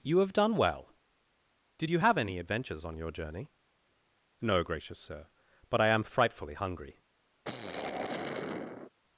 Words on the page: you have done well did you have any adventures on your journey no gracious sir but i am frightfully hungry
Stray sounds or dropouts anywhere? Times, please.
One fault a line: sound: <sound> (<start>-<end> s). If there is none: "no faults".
sound: sigh (7.4-8.9 s)